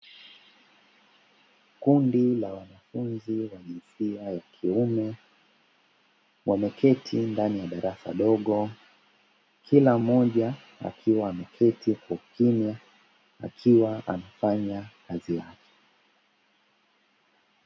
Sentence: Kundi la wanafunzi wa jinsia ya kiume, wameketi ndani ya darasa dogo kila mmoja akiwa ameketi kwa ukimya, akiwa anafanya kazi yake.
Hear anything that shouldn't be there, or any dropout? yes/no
no